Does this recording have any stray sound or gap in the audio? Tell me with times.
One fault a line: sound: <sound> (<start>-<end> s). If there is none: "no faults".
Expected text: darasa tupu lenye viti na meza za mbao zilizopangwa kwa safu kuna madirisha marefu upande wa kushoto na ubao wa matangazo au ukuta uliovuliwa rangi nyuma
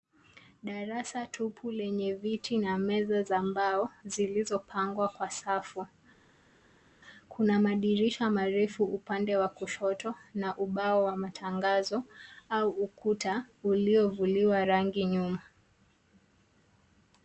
no faults